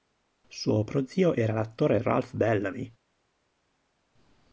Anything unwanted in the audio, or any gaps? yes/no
no